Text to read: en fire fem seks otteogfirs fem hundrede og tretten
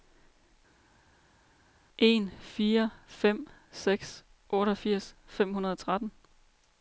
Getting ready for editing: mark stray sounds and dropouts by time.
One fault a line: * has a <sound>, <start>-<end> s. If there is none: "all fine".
all fine